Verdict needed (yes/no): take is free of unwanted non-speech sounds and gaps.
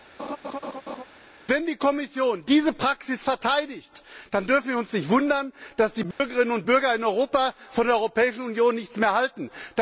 no